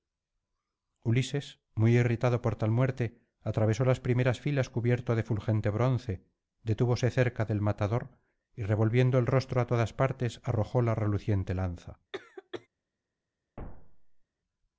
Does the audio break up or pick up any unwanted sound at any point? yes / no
yes